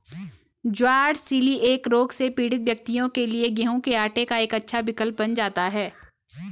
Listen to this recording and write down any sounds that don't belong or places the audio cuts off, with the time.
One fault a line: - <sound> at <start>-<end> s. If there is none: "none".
none